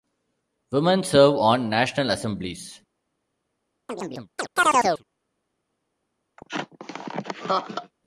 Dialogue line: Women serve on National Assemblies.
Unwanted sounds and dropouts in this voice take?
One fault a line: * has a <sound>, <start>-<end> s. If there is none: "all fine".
* has a chirp, 3.9-5.0 s
* has a laugh, 6.4-7.9 s